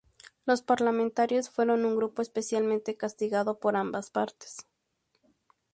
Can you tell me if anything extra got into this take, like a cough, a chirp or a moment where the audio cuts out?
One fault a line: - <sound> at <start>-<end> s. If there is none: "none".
none